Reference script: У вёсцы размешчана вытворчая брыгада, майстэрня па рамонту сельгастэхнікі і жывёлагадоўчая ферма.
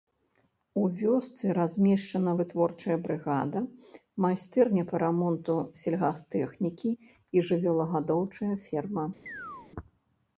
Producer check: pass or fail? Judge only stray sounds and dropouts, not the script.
fail